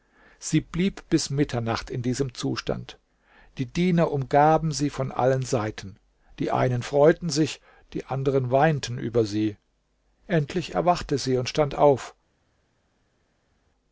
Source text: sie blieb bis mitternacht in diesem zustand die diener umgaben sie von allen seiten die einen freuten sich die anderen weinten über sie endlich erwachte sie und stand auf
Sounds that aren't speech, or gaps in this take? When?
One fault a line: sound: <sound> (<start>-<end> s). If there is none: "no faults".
no faults